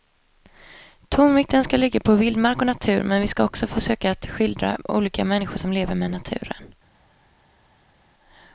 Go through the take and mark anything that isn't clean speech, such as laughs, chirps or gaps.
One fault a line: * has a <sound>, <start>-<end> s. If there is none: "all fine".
all fine